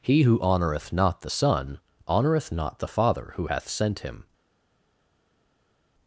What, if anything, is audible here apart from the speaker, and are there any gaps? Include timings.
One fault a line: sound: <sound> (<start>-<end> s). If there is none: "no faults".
no faults